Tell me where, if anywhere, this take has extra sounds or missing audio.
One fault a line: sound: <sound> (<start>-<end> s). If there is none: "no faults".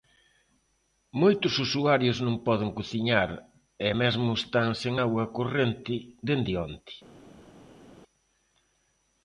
no faults